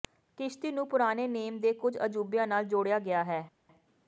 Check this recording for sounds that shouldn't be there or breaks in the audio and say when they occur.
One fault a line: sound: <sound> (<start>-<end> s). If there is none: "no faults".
no faults